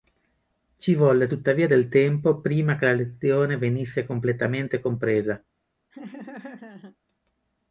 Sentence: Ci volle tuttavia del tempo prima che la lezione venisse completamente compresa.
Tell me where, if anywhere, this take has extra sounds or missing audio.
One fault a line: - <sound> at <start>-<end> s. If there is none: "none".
- laugh at 5.9-7.0 s